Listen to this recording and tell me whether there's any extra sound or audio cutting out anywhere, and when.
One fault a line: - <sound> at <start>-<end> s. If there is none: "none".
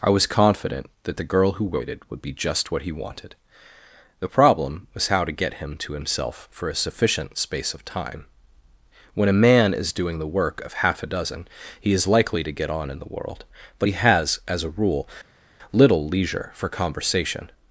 none